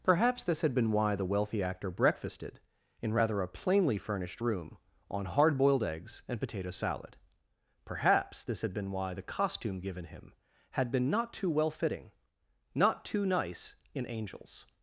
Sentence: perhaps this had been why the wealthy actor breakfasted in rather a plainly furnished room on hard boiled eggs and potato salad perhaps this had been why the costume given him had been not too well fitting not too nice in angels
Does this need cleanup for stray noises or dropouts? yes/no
no